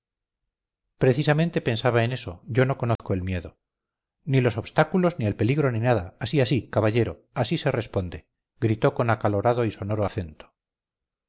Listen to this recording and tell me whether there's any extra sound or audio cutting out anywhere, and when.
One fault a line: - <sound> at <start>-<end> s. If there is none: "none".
- dropout at 3.0-3.0 s